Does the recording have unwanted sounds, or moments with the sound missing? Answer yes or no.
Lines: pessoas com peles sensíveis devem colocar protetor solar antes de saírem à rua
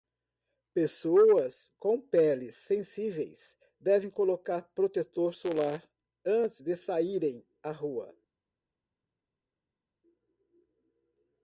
no